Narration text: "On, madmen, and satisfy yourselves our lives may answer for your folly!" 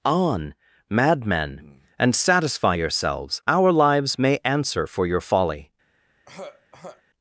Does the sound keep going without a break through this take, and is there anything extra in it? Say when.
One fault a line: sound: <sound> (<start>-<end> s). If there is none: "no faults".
sound: throat clearing (6.3-7.0 s)